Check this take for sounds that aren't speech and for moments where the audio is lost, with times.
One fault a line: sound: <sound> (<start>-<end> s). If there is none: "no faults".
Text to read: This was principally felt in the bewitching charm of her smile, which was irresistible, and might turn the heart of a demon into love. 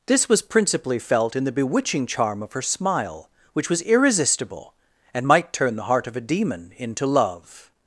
no faults